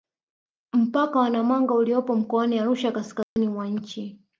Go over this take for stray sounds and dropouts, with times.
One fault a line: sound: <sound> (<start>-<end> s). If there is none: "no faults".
sound: dropout (3.2-3.4 s)